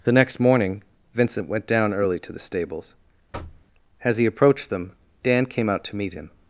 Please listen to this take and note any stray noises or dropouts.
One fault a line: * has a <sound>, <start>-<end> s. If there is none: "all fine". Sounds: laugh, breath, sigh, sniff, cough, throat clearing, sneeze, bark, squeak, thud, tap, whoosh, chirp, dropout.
* has a thud, 3.3-3.7 s